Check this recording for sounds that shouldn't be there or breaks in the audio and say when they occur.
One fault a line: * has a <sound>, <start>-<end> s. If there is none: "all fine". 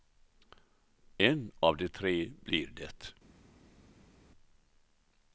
all fine